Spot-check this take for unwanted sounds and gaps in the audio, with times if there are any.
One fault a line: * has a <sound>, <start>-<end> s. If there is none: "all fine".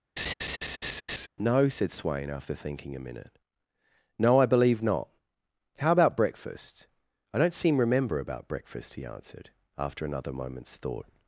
* has a laugh, 0.2-1.3 s